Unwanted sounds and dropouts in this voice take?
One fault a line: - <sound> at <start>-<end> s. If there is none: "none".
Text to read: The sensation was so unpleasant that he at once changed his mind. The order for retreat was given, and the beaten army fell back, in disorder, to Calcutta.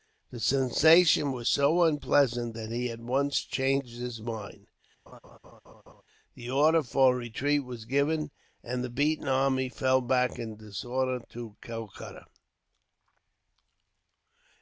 - laugh at 5.1-6.0 s